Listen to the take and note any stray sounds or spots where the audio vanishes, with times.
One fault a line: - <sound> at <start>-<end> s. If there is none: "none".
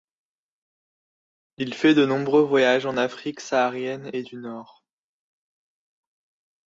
none